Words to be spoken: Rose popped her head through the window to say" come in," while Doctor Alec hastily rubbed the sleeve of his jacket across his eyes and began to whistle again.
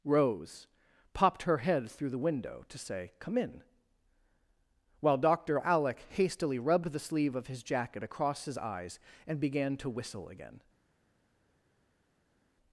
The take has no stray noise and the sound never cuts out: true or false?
true